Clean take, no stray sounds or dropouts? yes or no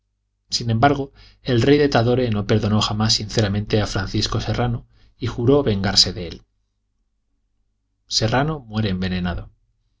yes